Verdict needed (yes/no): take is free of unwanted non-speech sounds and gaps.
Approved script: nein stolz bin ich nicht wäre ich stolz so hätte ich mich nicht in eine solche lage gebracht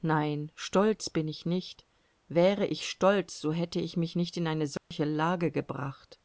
no